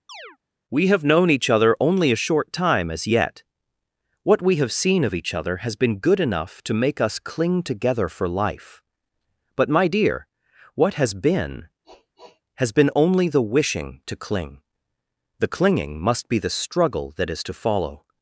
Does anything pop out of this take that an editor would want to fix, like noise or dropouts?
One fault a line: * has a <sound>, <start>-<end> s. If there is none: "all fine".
* has a chirp, 0.1-0.4 s
* has a sniff, 11.8-12.4 s